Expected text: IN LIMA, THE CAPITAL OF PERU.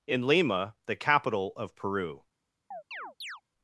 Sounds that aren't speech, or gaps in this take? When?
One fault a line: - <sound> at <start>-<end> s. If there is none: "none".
- chirp at 2.7-3.4 s